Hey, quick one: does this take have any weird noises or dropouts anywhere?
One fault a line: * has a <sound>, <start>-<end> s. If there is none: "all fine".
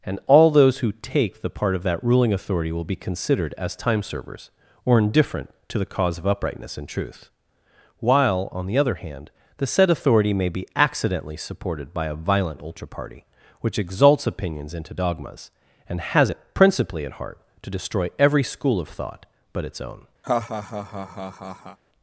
* has a laugh, 20.2-21.8 s